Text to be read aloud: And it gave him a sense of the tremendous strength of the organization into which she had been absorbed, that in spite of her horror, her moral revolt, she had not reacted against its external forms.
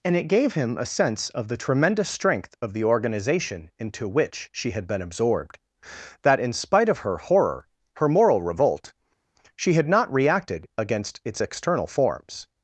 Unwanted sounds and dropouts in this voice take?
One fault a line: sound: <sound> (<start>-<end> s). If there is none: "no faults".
no faults